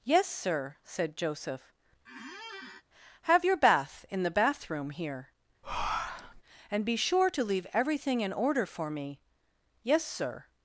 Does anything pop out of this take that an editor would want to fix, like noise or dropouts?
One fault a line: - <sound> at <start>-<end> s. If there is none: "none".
- squeak at 2.1-2.8 s
- breath at 5.6-6.4 s